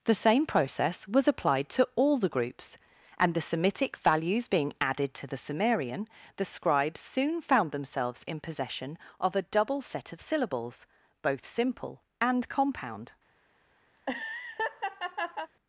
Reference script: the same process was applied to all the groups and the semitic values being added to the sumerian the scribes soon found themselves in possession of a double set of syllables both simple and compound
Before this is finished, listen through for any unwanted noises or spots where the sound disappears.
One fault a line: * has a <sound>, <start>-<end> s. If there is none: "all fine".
* has a laugh, 14.0-15.5 s